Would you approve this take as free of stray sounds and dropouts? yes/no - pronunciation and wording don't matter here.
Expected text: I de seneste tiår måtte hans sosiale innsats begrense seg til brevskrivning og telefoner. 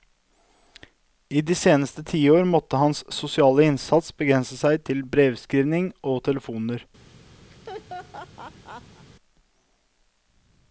no